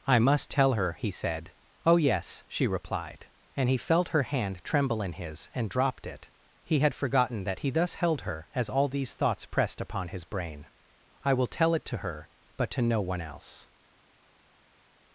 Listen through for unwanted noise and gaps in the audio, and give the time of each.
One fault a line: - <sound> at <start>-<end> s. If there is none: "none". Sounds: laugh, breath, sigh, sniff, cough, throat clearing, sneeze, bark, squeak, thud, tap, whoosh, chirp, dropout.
none